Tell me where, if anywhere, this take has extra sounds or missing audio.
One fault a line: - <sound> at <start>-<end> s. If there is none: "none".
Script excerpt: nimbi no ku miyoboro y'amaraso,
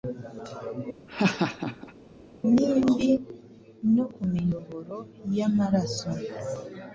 - laugh at 1.1-1.9 s